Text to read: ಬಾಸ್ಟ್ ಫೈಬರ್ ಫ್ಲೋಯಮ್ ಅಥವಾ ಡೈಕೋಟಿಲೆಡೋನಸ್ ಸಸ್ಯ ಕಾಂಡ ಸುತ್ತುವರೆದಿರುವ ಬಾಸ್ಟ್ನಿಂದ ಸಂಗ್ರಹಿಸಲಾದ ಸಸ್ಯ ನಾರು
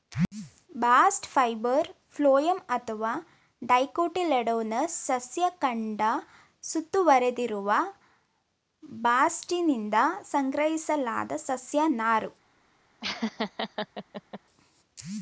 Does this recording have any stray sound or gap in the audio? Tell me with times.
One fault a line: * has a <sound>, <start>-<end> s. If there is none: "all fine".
* has a laugh, 13.0-14.4 s